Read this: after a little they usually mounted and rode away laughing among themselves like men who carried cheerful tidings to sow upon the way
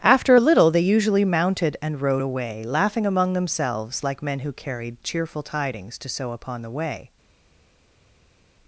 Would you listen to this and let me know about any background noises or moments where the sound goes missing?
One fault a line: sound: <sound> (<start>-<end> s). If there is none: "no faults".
no faults